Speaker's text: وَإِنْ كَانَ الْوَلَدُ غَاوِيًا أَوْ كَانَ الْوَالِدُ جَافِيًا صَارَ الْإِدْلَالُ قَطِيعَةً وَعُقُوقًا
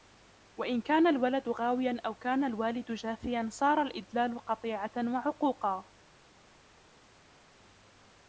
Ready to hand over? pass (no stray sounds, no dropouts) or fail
pass